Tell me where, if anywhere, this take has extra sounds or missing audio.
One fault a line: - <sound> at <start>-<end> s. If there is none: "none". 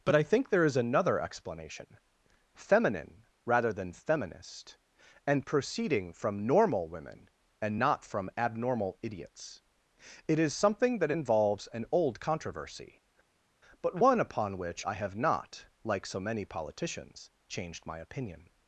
none